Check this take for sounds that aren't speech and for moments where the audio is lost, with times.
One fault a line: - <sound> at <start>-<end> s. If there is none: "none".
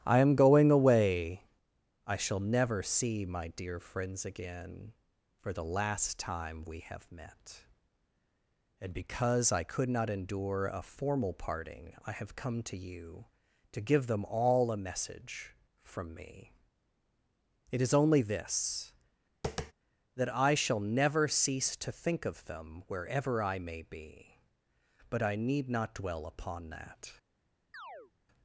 - tap at 19.4-19.7 s
- chirp at 27.7-28.1 s